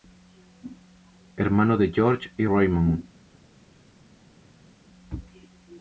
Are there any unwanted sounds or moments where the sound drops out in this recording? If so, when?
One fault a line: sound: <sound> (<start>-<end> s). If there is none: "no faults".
no faults